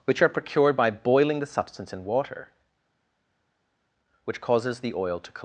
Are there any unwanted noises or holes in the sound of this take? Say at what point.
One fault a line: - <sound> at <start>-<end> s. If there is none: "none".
none